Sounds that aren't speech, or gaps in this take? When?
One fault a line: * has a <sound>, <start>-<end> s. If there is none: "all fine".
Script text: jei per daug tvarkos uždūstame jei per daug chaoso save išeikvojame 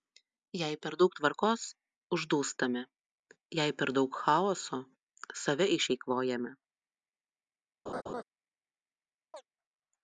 * has a laugh, 7.9-8.2 s
* has a chirp, 9.3-9.5 s